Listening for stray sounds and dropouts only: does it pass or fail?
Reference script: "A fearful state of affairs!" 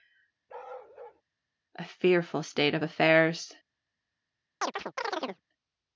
fail